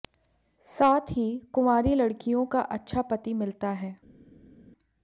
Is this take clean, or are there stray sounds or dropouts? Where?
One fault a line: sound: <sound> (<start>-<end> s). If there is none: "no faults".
no faults